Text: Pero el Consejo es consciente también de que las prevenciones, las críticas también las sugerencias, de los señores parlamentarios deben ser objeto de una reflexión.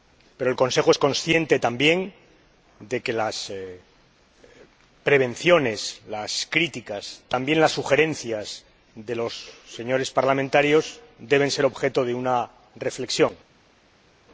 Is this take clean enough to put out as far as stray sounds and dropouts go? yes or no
yes